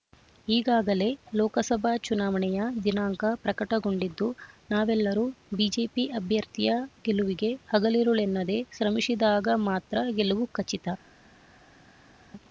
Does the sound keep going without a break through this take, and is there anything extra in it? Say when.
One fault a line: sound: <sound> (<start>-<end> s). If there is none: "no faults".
no faults